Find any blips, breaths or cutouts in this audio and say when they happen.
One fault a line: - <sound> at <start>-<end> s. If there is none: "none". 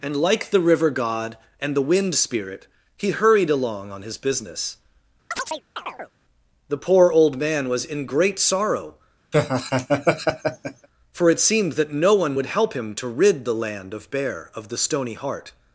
- chirp at 5.3-6.1 s
- laugh at 9.3-10.9 s